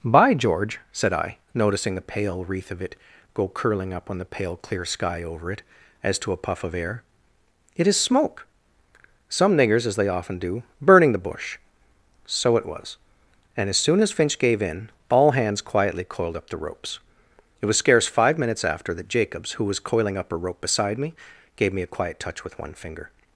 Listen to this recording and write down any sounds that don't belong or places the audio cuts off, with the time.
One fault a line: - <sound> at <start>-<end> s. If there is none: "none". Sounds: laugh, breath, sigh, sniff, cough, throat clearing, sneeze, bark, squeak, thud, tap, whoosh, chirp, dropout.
none